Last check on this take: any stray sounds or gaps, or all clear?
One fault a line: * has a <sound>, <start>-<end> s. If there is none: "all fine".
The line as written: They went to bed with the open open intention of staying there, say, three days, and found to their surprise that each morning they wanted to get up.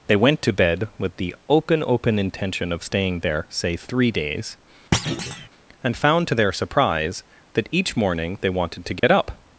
* has a thud, 4.9-5.5 s
* has a dropout, 9.0-9.0 s